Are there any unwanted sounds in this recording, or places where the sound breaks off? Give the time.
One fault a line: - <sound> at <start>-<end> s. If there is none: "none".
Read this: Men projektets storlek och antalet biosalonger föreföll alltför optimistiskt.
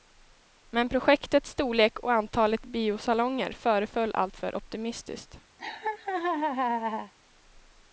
- laugh at 5.6-7.1 s